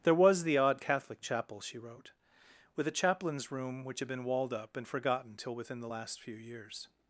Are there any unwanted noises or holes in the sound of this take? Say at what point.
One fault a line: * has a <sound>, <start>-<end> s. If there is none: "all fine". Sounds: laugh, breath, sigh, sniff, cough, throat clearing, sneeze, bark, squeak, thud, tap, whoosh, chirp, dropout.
all fine